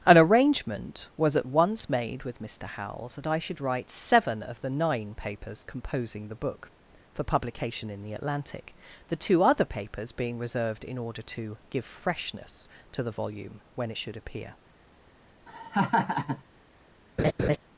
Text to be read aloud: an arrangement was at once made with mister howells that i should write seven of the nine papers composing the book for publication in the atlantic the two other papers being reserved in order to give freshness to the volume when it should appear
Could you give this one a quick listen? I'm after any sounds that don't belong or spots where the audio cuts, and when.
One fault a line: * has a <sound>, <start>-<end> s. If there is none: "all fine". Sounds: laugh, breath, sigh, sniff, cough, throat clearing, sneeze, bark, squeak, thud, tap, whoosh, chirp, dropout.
* has a laugh, 15.5-16.4 s
* has a laugh, 17.2-17.6 s